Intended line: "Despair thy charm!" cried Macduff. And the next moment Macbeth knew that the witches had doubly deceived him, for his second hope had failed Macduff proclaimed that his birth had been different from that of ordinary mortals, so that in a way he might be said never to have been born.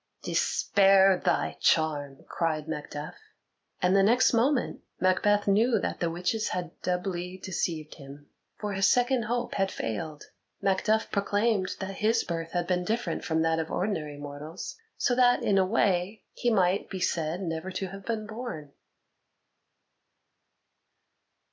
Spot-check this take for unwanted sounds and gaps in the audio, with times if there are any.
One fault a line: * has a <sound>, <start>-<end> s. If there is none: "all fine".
all fine